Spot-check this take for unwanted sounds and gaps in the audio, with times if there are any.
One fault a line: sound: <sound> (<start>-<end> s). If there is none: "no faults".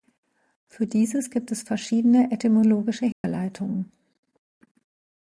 sound: dropout (3.1-3.2 s)